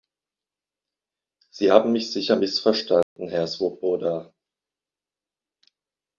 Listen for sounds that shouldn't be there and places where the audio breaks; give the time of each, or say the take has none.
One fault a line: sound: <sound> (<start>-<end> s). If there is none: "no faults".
sound: dropout (3.0-3.2 s)